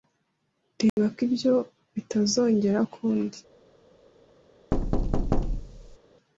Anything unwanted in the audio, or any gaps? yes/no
yes